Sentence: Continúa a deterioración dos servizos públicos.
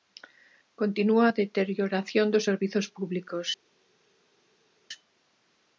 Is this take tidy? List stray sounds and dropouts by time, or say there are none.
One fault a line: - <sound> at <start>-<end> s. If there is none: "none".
none